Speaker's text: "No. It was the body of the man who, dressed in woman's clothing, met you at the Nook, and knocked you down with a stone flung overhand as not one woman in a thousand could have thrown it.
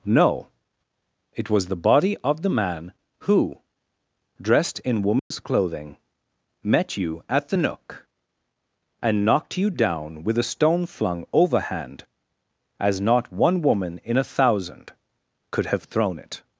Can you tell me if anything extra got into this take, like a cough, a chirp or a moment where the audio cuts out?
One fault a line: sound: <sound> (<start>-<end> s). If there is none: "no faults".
sound: dropout (5.2-5.3 s)